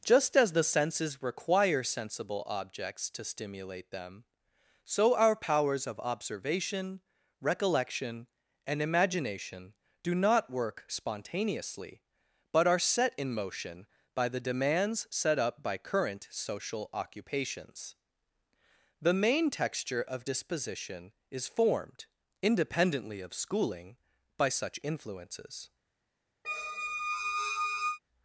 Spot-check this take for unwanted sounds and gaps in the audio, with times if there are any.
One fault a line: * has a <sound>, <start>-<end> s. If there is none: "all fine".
* has a squeak, 26.4-28.0 s